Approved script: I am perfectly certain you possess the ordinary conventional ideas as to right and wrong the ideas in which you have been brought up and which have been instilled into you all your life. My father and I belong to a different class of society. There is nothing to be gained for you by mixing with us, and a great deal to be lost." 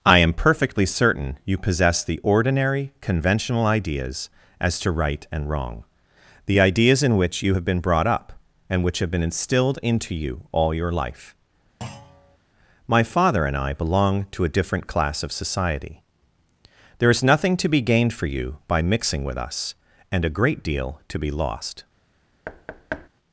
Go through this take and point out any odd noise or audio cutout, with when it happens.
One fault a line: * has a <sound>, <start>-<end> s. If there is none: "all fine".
* has a thud, 11.8-12.4 s
* has a thud, 22.5-23.1 s